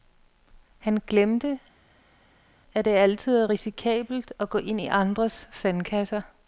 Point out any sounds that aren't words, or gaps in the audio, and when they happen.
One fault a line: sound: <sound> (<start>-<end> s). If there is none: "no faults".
no faults